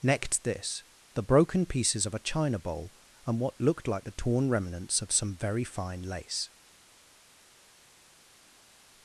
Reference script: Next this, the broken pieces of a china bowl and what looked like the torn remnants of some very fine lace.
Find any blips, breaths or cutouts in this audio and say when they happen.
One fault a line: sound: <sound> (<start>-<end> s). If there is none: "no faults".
no faults